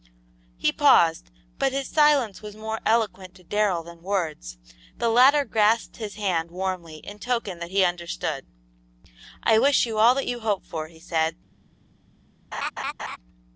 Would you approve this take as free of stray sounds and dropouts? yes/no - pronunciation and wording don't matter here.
no